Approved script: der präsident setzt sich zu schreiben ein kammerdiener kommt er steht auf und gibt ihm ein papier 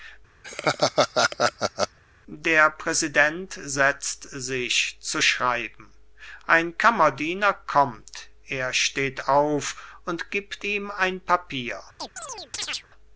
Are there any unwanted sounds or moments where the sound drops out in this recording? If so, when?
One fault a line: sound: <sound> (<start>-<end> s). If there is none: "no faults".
sound: laugh (0.4-2.0 s)
sound: chirp (12.0-12.9 s)